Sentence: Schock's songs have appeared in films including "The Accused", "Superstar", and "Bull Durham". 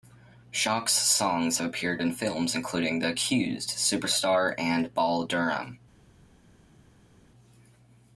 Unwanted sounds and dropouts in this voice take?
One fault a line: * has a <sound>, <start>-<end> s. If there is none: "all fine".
all fine